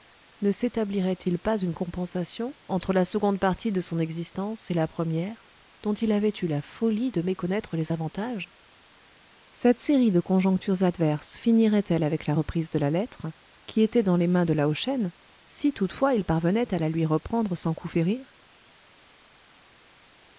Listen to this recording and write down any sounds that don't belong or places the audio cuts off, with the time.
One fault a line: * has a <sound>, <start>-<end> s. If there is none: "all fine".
all fine